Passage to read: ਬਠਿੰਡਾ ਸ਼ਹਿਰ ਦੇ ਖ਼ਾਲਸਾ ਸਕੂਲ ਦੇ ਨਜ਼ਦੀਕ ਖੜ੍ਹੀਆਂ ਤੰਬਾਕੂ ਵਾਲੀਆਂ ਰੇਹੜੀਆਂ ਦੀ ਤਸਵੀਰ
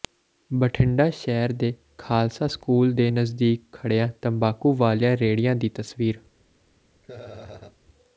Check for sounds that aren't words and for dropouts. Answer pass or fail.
fail